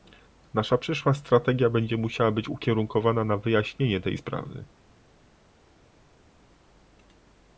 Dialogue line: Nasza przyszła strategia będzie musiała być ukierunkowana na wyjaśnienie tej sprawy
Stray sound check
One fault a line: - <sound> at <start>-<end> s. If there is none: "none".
none